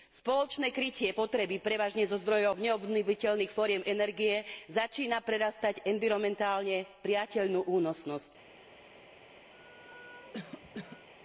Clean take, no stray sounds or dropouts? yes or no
no